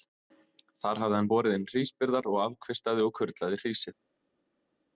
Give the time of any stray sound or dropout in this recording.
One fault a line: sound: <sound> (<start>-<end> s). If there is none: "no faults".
no faults